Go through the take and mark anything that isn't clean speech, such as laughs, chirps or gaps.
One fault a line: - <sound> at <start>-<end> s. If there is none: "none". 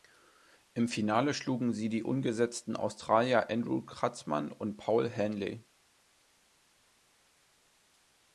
none